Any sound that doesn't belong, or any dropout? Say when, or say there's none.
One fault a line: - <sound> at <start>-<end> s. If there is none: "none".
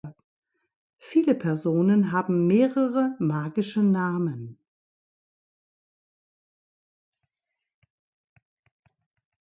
none